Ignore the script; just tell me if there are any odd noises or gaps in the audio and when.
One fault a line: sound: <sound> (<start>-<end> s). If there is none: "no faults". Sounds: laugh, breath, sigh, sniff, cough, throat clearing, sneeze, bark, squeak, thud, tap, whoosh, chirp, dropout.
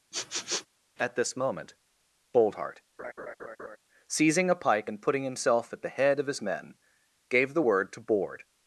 sound: sniff (0.1-0.7 s)
sound: laugh (3.0-3.8 s)